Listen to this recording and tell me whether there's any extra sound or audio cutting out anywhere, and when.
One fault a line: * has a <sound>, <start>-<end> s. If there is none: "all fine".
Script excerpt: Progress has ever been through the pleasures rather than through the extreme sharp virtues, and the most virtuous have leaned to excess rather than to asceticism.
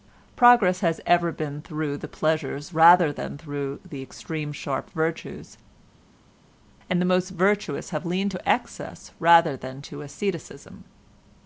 all fine